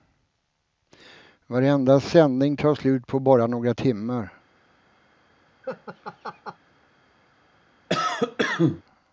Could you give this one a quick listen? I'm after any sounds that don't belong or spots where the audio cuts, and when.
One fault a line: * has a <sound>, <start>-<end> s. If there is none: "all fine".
* has a laugh, 5.6-6.6 s
* has a cough, 7.9-8.8 s